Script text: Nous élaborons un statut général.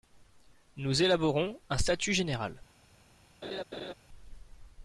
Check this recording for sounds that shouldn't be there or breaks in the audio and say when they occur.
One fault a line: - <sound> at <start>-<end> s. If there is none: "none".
- laugh at 3.4-3.9 s